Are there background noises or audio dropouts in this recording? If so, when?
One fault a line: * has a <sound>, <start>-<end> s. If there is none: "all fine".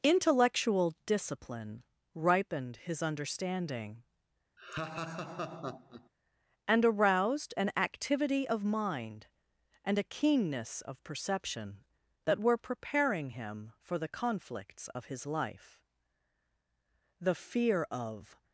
* has a laugh, 4.6-6.1 s